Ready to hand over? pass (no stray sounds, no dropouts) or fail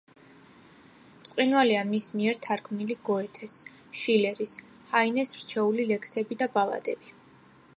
pass